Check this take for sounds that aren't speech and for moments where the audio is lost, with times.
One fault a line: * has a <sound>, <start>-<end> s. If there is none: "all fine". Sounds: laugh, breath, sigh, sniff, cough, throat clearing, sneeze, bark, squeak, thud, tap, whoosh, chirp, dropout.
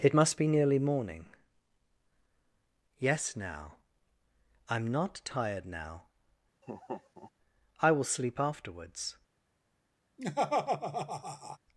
* has a laugh, 6.6-7.3 s
* has a laugh, 10.2-11.6 s